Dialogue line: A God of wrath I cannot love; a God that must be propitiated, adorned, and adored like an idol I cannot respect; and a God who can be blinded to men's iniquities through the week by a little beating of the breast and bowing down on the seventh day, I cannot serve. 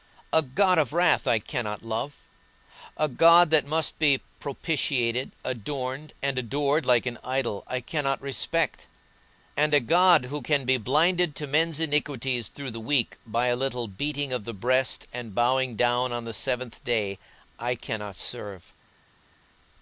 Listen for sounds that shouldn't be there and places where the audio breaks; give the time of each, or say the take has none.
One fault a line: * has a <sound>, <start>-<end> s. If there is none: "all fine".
all fine